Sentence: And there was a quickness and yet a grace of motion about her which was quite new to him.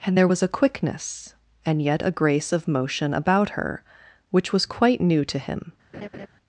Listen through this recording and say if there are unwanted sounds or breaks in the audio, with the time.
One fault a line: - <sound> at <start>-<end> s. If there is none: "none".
- laugh at 5.9-6.3 s